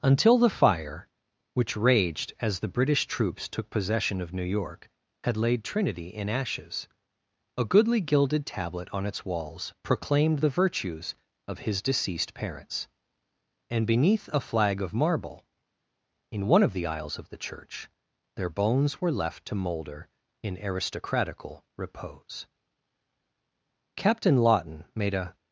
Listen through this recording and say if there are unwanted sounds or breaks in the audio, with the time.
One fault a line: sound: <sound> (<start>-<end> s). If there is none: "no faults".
no faults